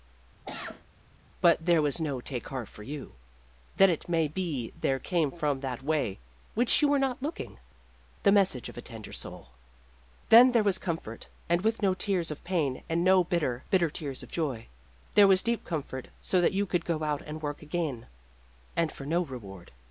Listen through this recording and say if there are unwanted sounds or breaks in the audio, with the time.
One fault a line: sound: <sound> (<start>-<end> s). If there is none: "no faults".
sound: cough (0.4-0.8 s)